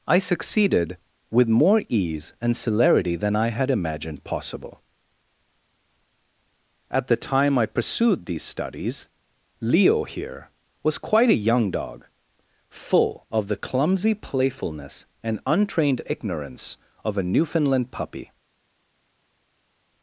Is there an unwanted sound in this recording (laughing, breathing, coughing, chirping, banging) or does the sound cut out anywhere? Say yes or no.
no